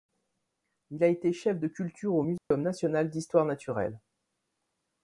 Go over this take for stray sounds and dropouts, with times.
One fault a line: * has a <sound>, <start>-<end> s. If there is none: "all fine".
* has a dropout, 2.4-2.5 s